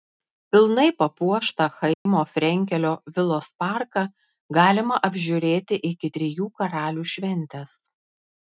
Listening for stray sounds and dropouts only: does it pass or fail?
fail